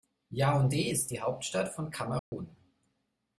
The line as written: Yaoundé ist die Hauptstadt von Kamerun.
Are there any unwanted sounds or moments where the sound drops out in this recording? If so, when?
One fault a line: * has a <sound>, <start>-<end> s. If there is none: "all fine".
* has a dropout, 2.2-2.3 s